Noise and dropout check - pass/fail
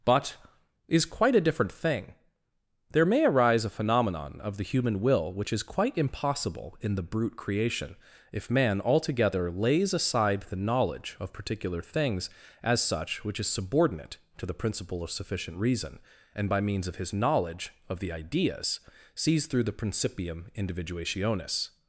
pass